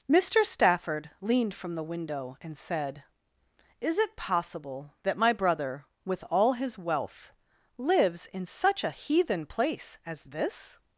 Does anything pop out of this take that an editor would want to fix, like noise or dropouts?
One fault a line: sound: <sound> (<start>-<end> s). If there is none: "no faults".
no faults